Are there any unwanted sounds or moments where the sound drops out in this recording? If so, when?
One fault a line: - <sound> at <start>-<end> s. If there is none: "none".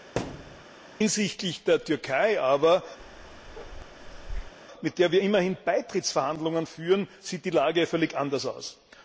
- thud at 0.2-0.6 s
- bark at 3.0-4.5 s